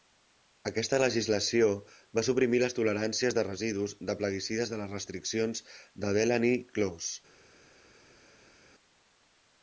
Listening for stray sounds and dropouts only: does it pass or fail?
pass